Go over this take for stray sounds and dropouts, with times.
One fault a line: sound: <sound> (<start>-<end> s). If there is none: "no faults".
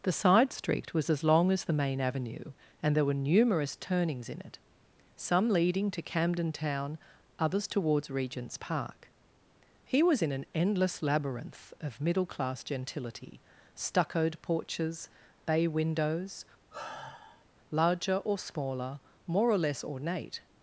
sound: sigh (16.7-17.5 s)